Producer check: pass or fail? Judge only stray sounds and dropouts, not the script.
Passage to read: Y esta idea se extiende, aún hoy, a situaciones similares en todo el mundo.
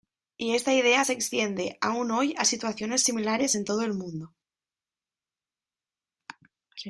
pass